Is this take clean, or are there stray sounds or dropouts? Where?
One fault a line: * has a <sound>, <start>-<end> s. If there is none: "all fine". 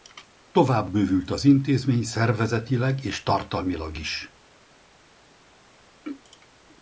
all fine